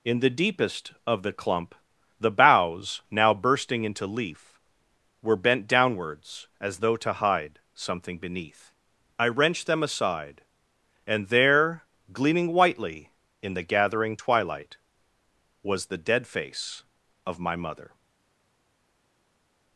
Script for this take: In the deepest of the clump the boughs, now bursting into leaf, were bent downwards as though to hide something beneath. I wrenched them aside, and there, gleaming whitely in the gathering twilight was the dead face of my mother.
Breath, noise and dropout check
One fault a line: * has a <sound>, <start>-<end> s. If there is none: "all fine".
all fine